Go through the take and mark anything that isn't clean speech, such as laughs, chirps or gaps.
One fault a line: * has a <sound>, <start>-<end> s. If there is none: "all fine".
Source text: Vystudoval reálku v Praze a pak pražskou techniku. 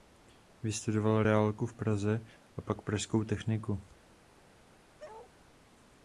* has a bark, 5.0-5.3 s